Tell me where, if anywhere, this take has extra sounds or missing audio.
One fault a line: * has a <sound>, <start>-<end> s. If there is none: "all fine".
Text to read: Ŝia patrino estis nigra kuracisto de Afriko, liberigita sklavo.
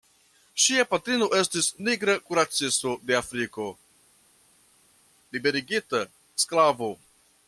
all fine